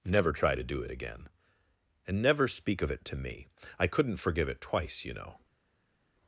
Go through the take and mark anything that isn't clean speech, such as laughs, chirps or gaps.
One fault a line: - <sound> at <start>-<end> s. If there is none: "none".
none